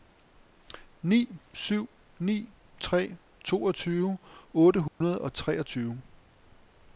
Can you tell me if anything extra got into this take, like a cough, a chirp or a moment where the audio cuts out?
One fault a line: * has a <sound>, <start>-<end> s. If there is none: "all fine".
* has a dropout, 4.9-5.0 s